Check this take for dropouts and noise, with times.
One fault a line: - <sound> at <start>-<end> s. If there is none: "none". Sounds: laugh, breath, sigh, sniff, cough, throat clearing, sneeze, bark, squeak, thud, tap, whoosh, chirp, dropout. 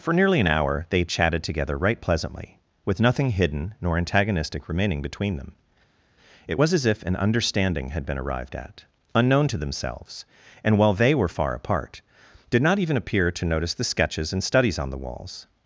none